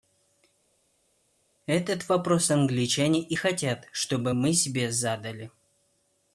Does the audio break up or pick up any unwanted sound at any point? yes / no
no